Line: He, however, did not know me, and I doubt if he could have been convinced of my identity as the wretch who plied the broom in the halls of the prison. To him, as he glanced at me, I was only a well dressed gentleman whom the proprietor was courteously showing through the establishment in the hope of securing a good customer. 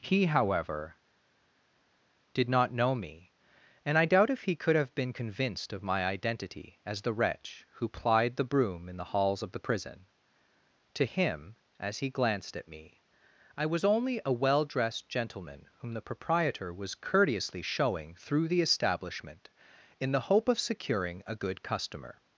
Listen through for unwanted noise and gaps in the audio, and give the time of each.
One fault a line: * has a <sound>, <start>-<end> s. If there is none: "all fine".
all fine